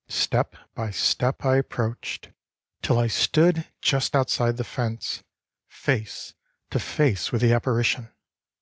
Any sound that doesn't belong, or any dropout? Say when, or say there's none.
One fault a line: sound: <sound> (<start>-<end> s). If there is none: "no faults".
no faults